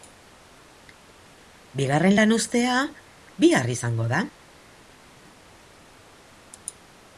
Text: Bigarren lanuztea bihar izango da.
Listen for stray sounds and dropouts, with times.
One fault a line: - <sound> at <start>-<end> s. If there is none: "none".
none